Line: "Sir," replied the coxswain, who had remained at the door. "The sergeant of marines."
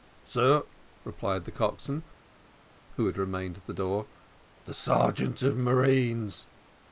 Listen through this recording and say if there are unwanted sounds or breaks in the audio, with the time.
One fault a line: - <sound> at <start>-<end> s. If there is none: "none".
none